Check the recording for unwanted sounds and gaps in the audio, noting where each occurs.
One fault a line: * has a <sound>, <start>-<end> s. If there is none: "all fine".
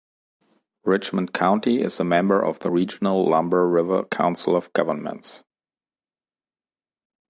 all fine